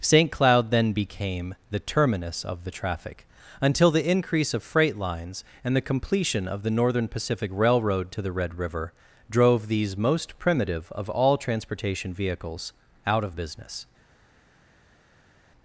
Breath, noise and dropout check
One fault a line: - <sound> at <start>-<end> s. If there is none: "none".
none